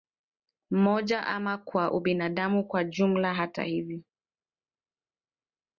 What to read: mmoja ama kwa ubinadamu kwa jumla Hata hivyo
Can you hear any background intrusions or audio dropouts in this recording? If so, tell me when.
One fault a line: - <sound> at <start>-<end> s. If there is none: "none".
none